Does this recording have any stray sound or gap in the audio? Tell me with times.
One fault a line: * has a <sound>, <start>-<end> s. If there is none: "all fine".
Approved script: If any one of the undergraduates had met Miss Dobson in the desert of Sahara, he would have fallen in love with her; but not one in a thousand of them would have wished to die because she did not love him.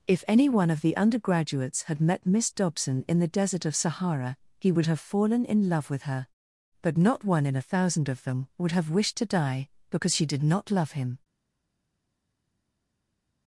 all fine